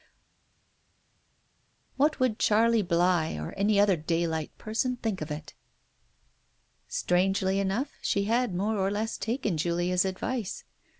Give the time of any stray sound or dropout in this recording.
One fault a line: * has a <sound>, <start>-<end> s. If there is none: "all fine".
all fine